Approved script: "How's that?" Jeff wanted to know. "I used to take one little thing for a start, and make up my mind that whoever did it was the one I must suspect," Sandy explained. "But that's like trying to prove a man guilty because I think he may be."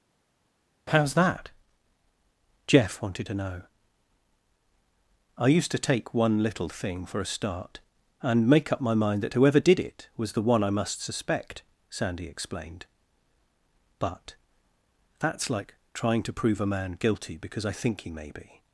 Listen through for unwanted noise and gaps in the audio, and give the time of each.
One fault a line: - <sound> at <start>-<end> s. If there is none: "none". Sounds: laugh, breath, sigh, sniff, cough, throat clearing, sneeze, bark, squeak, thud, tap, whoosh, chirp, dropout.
none